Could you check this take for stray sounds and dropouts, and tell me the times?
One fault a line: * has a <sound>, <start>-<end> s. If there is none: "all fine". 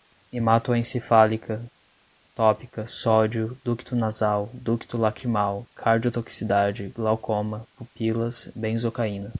all fine